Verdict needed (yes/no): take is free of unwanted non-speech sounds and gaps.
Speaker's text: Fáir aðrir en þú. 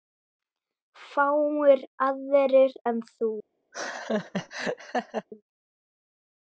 no